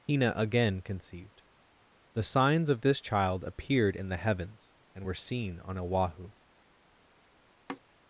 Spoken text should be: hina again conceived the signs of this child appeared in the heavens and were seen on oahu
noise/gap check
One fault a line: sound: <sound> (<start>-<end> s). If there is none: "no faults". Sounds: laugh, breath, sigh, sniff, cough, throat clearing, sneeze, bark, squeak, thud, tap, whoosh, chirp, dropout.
sound: sigh (7.7-7.8 s)